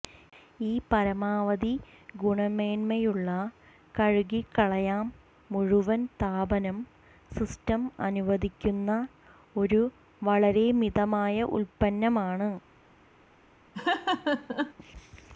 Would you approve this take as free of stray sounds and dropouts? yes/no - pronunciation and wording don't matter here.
no